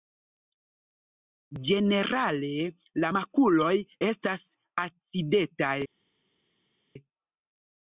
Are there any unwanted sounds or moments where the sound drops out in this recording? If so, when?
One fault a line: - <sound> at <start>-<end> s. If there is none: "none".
none